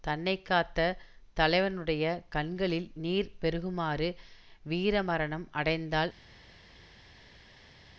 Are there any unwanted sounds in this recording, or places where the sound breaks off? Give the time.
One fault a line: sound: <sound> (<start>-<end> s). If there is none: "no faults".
no faults